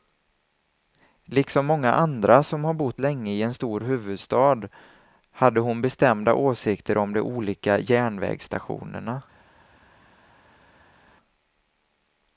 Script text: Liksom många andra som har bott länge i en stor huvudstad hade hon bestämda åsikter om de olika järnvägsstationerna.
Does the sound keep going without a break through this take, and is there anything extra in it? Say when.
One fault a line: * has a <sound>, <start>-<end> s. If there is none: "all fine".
all fine